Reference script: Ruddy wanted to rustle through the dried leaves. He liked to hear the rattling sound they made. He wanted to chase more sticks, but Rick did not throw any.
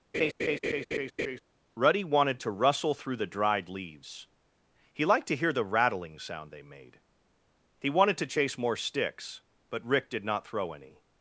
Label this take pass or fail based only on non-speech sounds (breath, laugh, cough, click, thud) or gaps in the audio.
fail